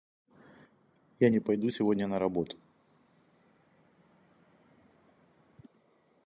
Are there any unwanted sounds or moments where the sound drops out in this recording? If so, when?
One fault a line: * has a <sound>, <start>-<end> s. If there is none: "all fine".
all fine